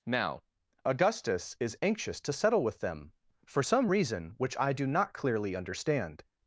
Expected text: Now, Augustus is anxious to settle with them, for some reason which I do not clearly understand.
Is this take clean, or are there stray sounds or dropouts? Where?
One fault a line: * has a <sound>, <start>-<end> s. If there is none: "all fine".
all fine